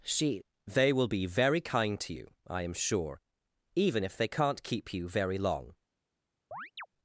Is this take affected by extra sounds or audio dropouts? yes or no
yes